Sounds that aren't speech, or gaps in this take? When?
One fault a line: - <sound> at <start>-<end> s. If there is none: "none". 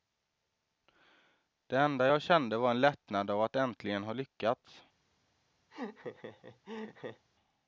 - laugh at 5.7-7.3 s